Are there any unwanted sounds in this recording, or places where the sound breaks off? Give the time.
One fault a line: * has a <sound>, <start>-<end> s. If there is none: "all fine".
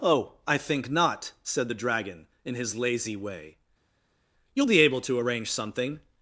all fine